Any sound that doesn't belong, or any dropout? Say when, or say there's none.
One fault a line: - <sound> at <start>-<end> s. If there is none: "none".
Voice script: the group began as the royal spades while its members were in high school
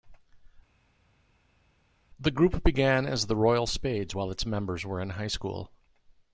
none